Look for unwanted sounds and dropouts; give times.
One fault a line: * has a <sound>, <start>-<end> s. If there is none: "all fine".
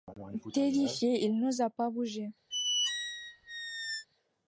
* has a squeak, 2.5-4.1 s